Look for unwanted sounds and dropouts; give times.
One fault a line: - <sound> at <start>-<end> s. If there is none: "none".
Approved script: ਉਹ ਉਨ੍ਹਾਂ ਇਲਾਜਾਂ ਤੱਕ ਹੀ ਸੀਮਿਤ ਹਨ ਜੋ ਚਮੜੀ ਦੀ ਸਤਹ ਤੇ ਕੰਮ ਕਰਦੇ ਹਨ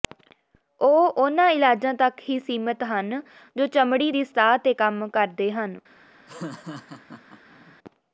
- laugh at 6.3-7.8 s